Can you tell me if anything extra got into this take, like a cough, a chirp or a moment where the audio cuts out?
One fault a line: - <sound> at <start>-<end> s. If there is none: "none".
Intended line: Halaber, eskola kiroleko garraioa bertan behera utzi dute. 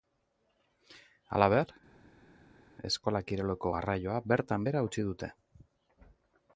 none